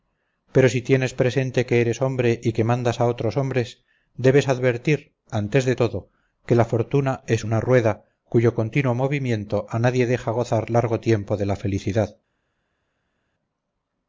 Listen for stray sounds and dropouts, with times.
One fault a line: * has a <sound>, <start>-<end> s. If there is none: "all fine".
all fine